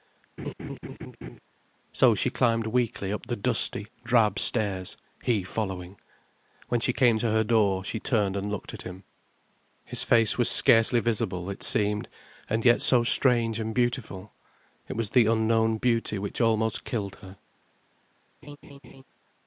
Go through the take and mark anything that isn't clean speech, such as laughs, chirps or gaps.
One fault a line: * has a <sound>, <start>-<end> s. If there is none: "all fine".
* has a laugh, 0.4-1.4 s
* has a laugh, 18.4-19.0 s